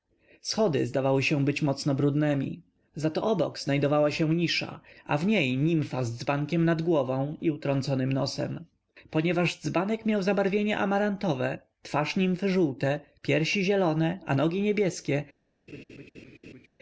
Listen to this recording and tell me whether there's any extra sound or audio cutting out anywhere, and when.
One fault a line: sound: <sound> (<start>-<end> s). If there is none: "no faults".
sound: laugh (15.7-16.7 s)